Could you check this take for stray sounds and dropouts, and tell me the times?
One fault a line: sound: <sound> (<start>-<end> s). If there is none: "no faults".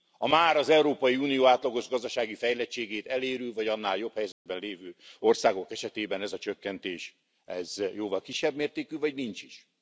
sound: dropout (4.3-4.5 s)